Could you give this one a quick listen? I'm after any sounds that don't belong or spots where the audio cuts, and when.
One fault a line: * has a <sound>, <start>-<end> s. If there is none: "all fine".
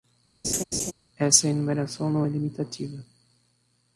* has a laugh, 0.4-0.9 s